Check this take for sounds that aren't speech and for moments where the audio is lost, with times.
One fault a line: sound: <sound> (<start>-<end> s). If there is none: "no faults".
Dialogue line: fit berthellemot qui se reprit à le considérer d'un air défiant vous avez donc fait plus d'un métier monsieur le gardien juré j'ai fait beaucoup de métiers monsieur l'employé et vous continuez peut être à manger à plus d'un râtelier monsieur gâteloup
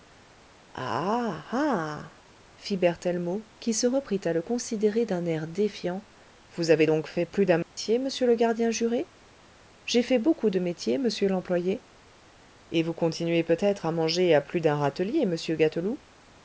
sound: dropout (7.6-7.8 s)